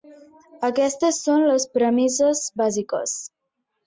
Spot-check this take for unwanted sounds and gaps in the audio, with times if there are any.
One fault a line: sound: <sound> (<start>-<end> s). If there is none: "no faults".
no faults